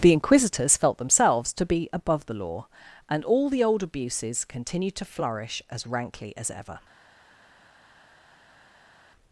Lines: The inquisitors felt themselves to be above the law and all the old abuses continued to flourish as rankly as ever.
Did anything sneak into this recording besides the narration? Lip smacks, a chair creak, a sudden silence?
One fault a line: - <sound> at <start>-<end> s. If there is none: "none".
none